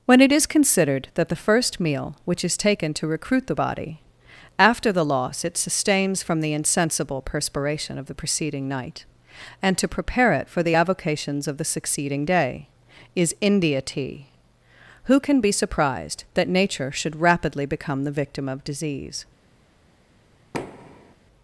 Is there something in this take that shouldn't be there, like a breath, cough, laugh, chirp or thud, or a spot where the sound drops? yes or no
yes